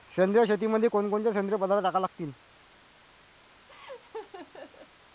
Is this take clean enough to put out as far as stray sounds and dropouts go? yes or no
no